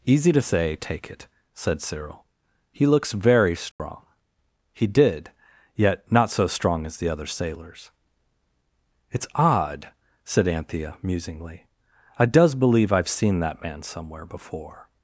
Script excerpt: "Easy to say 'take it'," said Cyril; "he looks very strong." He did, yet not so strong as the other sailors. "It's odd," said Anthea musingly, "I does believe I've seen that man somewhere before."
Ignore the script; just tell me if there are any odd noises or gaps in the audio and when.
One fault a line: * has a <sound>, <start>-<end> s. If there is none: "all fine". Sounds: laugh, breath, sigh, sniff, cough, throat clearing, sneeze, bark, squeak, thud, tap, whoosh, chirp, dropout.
* has a dropout, 3.7-3.8 s